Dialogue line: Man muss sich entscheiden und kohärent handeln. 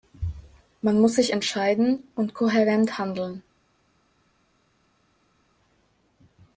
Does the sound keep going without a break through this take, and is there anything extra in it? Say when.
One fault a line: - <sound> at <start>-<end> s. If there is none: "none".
none